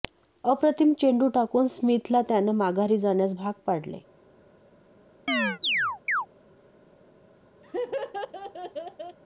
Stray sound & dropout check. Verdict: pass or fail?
fail